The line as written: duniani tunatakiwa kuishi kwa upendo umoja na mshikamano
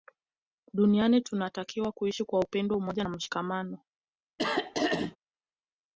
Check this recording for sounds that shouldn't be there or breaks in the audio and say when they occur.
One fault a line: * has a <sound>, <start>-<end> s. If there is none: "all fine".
* has a throat clearing, 4.4-5.2 s